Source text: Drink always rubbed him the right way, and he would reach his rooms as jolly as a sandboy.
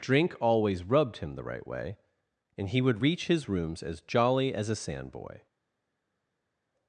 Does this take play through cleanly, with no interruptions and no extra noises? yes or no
yes